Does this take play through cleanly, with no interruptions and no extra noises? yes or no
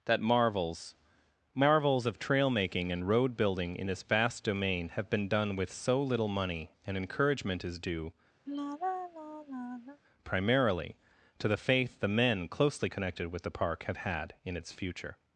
no